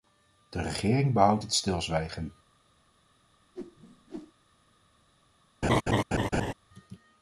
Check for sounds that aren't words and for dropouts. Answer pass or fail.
fail